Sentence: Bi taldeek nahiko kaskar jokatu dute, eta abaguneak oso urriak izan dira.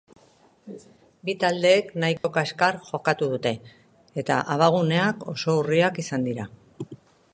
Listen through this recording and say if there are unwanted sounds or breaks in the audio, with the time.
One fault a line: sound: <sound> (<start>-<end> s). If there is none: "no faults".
sound: dropout (2.2-2.2 s)